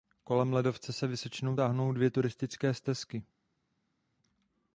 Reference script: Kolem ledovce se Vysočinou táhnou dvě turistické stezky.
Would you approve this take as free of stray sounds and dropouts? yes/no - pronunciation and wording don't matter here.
yes